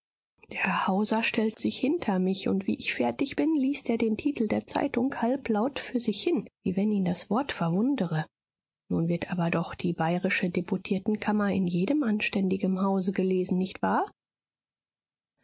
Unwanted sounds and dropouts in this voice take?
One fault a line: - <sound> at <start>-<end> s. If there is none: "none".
none